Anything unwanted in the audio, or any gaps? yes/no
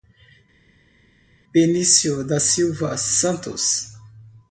no